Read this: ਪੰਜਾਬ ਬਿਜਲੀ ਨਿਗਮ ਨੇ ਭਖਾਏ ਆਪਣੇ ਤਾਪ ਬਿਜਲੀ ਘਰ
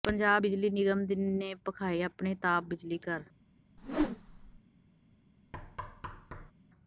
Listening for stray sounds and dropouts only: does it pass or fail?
fail